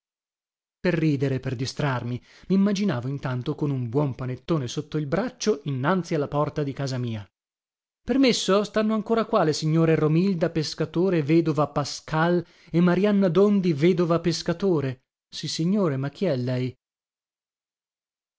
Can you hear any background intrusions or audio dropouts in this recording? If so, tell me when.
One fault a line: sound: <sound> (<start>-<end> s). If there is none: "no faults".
no faults